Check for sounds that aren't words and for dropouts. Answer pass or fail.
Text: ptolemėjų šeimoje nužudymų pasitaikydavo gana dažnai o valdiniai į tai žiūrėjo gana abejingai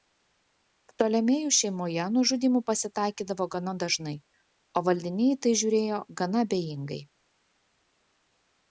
pass